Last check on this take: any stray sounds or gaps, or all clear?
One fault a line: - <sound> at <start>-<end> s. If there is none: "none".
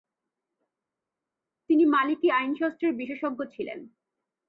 none